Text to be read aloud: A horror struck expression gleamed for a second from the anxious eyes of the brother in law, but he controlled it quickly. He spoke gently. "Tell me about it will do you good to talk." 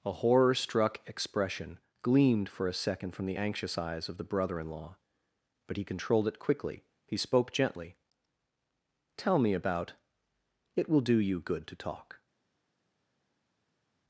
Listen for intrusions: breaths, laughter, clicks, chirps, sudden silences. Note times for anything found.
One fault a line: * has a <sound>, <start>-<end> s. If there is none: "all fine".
all fine